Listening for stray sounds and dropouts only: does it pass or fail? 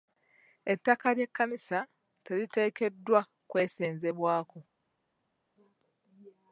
pass